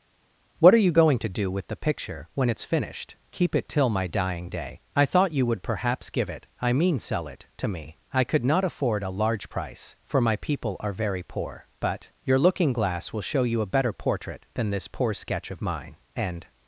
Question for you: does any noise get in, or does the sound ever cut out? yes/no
no